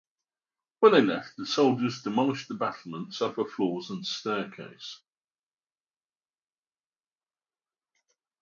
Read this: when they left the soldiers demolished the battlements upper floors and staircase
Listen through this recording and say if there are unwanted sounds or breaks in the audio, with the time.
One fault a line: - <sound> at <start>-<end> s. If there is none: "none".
none